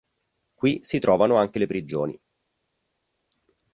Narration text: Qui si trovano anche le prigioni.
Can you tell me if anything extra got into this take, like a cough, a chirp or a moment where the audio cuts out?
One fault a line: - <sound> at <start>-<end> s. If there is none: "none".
none